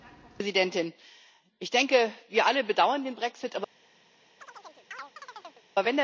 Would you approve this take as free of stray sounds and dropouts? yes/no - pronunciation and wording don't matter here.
no